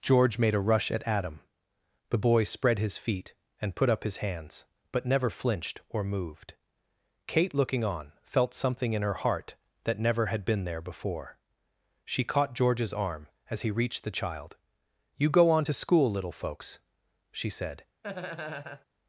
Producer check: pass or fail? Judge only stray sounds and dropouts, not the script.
fail